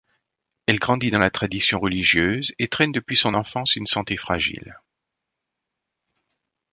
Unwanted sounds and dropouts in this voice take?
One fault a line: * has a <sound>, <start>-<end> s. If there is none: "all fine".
all fine